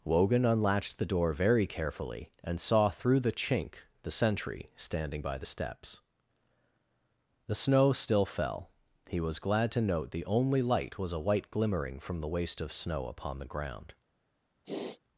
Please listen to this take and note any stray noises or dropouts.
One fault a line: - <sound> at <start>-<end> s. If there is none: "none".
- sniff at 14.6-15.0 s